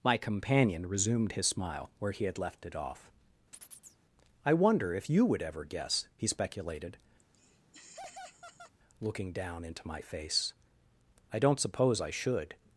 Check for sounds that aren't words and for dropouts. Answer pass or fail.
fail